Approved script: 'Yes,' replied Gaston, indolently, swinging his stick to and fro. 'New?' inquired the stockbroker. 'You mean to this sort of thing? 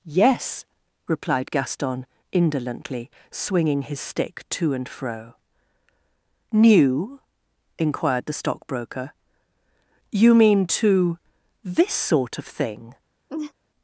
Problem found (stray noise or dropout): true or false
true